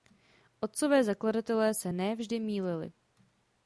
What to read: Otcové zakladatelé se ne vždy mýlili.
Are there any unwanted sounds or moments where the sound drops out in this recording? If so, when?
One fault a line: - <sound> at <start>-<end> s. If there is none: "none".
none